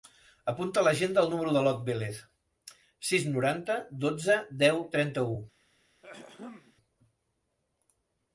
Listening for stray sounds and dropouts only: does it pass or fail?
fail